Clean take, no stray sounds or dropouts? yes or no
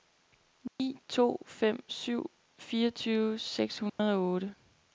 no